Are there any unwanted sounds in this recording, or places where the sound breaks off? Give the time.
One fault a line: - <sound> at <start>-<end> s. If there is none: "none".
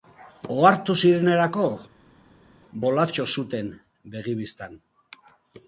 none